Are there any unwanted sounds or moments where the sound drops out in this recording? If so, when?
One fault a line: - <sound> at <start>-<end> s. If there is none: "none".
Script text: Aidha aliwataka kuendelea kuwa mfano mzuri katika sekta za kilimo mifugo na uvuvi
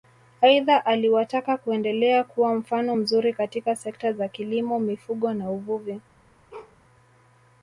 - bark at 6.5-6.8 s